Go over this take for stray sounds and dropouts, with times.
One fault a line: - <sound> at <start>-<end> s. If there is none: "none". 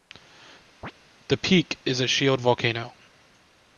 - chirp at 0.8-0.9 s